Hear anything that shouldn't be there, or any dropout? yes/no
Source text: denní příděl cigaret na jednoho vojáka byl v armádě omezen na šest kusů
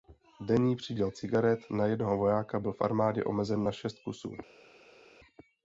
no